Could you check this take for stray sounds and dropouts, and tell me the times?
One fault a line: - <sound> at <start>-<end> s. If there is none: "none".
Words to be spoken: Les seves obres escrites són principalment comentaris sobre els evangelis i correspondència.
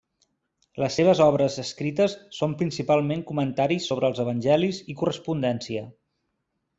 none